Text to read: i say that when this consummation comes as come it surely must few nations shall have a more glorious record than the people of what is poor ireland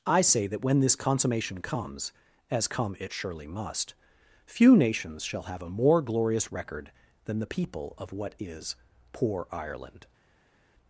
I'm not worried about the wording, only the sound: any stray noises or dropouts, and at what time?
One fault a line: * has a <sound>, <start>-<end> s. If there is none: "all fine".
all fine